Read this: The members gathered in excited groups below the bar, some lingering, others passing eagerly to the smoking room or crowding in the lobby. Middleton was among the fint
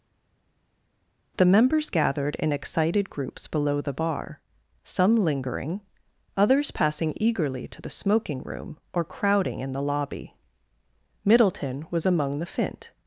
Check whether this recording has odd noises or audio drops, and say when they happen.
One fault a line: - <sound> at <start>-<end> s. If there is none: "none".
none